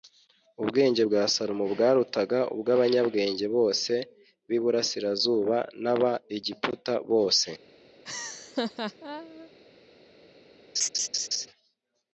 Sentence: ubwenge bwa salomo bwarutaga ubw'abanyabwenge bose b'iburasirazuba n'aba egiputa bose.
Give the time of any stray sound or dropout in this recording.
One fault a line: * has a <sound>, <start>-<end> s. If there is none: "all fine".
* has a laugh, 8.0-9.5 s
* has a laugh, 10.8-11.5 s